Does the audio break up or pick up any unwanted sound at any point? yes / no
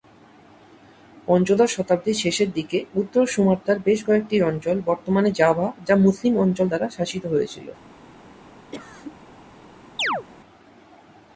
yes